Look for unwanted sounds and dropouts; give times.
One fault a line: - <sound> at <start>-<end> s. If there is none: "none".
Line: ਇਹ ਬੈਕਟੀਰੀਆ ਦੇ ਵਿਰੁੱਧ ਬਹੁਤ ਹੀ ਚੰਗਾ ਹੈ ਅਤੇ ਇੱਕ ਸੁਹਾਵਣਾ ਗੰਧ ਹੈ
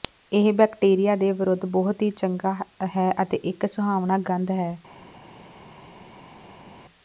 none